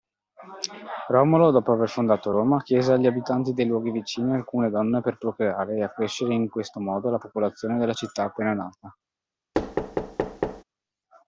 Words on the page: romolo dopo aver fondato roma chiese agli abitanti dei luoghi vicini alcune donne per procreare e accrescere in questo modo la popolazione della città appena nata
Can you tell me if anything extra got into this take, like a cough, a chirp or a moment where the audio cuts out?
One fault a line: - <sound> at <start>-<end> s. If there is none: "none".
- thud at 9.5-10.6 s